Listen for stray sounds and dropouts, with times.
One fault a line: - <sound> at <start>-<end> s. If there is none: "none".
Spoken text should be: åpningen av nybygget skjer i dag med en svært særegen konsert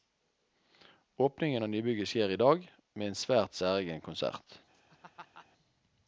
- laugh at 4.7-5.5 s